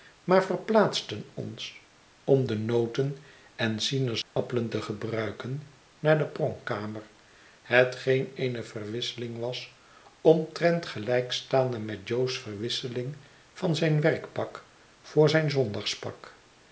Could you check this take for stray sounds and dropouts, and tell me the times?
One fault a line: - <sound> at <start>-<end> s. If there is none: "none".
- dropout at 4.2-4.4 s